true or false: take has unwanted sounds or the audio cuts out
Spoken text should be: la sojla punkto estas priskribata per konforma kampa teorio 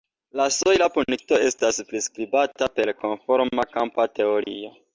true